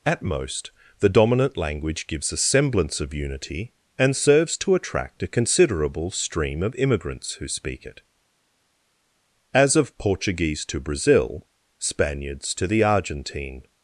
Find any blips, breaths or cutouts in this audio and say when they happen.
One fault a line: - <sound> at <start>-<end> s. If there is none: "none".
none